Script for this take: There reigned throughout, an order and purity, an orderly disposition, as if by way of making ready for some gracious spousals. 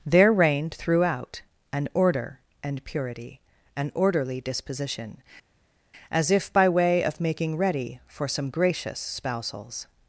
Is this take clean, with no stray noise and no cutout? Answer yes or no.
yes